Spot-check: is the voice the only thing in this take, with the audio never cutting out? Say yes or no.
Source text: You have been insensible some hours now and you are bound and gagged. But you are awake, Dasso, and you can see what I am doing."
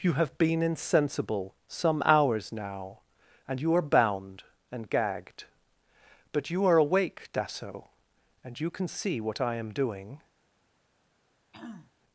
no